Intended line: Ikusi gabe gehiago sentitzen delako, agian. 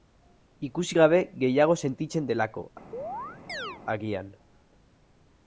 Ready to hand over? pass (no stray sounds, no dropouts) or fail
fail